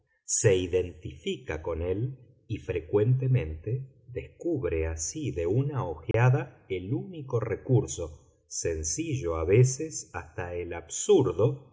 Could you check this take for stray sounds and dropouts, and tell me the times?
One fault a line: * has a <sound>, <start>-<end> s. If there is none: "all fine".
* has a dropout, 6.1-6.1 s